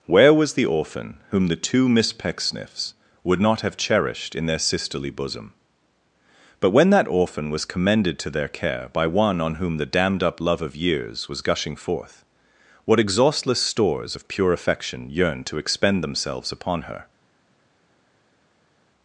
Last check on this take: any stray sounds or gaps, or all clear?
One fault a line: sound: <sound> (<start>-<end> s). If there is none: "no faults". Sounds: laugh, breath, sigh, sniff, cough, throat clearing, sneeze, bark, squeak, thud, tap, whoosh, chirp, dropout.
no faults